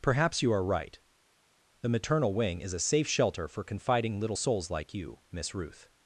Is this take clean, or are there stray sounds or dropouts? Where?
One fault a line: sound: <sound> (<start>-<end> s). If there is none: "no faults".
no faults